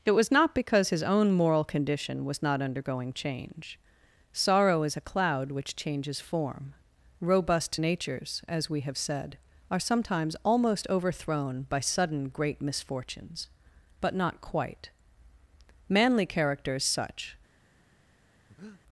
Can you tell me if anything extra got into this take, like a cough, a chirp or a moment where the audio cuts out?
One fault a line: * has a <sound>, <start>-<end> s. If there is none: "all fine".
* has a breath, 18.5-18.8 s